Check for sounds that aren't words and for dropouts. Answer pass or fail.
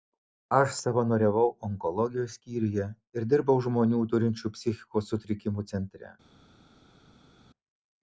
pass